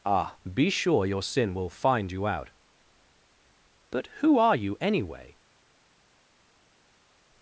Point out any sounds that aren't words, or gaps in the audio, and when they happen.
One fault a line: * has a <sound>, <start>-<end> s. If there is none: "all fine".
all fine